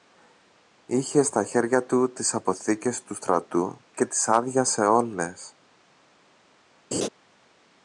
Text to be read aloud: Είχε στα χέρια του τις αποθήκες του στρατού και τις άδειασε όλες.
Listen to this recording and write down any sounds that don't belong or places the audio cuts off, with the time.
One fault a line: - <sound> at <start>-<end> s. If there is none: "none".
- laugh at 6.9-7.1 s